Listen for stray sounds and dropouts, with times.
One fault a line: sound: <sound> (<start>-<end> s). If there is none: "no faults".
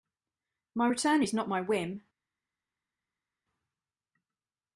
no faults